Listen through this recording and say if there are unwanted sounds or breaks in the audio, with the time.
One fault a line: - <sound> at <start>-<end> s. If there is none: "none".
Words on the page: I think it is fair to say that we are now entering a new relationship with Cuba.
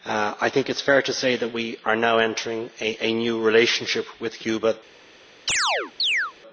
- chirp at 5.5-6.3 s